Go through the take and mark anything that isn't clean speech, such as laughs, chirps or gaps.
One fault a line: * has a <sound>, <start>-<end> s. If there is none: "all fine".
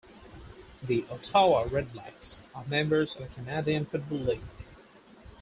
all fine